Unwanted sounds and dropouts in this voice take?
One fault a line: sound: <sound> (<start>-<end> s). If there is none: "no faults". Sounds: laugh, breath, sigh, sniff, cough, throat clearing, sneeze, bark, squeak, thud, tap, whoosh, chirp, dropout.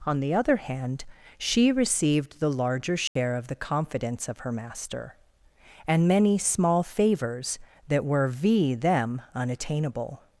sound: dropout (3.1-3.2 s)